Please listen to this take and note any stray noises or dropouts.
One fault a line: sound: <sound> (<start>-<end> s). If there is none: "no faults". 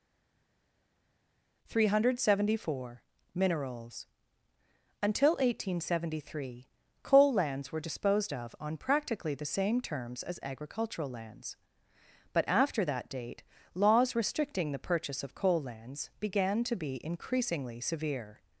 no faults